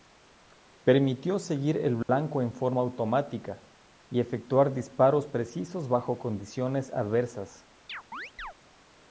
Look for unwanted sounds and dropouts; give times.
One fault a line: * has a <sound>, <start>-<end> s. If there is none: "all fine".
* has a dropout, 2.0-2.1 s
* has a chirp, 7.9-8.5 s